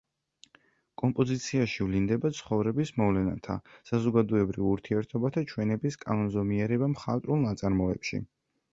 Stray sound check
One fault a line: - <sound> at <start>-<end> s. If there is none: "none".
none